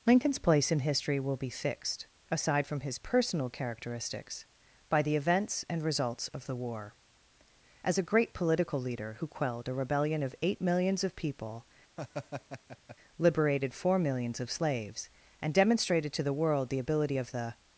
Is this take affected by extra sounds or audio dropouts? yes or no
yes